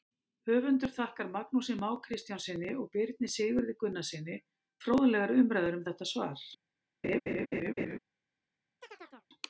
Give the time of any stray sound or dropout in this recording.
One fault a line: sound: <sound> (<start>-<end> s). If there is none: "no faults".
sound: laugh (7.0-8.0 s)
sound: chirp (8.8-9.3 s)